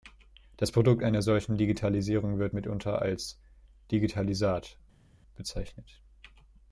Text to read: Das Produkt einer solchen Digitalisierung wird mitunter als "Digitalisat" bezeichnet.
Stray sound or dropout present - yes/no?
no